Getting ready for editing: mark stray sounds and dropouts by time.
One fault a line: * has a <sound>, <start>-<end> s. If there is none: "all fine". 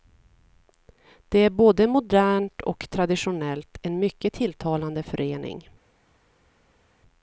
all fine